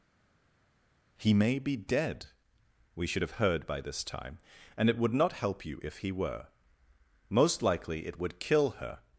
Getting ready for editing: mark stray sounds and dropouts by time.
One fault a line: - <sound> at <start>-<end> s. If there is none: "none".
none